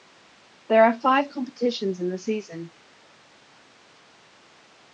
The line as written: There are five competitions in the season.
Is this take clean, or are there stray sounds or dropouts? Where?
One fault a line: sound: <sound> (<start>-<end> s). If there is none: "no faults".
no faults